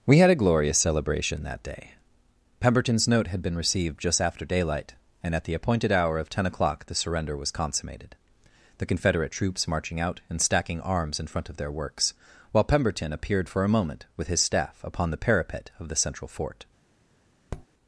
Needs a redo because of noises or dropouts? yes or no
yes